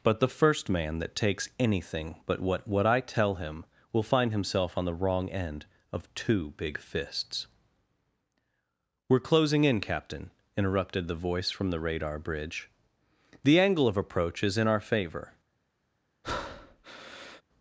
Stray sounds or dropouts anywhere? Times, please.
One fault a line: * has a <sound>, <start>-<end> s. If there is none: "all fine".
* has a breath, 16.2-17.4 s